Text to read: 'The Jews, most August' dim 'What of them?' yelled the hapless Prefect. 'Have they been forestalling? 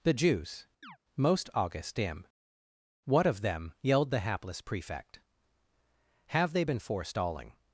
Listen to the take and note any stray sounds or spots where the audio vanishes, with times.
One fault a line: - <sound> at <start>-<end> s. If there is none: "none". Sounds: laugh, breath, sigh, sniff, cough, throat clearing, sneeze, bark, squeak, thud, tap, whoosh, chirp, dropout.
- chirp at 0.8-1.0 s